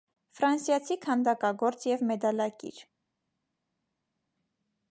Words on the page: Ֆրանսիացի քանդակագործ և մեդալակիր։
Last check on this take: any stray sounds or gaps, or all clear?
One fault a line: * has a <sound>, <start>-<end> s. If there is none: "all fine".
all fine